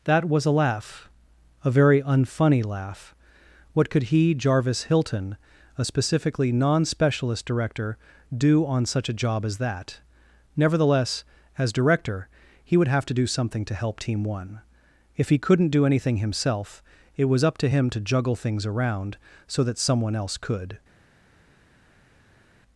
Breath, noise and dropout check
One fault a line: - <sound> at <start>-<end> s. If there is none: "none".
none